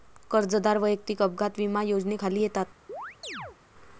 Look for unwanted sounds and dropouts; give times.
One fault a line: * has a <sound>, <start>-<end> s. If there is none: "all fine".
* has a chirp, 2.9-3.6 s